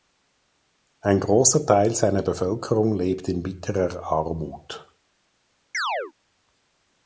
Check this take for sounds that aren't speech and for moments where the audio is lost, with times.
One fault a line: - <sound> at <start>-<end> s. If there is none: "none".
- chirp at 5.7-6.1 s